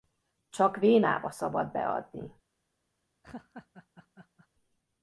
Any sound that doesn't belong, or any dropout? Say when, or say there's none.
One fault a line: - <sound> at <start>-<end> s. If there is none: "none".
- laugh at 3.2-4.5 s